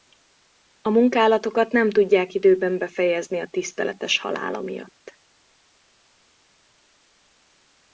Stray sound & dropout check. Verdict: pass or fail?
pass